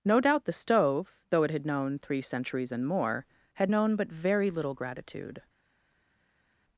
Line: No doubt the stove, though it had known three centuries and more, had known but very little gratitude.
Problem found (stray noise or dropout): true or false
false